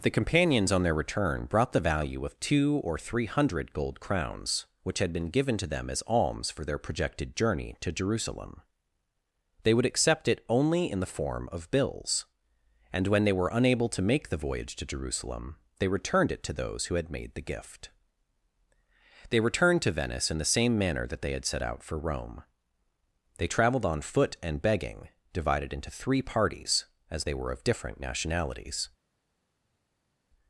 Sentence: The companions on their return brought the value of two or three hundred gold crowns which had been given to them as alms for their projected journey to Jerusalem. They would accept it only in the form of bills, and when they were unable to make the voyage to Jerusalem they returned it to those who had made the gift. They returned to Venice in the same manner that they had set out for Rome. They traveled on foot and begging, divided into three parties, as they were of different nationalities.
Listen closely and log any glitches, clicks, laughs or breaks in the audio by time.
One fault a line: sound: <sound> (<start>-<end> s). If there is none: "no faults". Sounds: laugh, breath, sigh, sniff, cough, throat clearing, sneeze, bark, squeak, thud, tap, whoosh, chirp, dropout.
no faults